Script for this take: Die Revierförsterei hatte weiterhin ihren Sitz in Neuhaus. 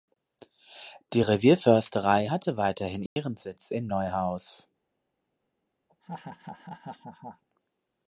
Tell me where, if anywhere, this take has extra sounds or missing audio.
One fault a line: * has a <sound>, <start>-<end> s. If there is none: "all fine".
* has a dropout, 3.1-3.2 s
* has a laugh, 5.9-7.4 s